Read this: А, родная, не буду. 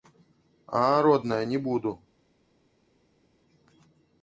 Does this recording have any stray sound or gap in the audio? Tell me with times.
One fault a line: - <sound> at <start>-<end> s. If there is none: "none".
none